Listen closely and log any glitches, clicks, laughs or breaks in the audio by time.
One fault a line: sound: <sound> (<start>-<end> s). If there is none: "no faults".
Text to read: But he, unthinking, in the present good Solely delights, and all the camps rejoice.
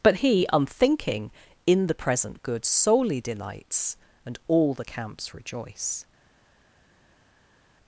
no faults